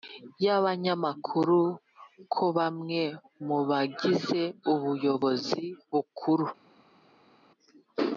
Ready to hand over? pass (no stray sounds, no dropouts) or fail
pass